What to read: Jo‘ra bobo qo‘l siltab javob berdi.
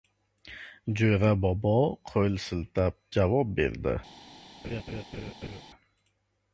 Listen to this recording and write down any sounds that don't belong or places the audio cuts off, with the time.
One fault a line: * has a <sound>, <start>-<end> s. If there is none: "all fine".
* has a laugh, 4.6-5.6 s